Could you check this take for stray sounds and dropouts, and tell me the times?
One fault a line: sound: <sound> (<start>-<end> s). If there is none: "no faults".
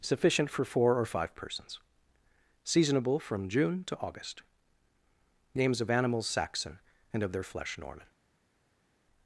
no faults